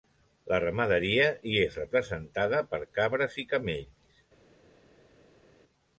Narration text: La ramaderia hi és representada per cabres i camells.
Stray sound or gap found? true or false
false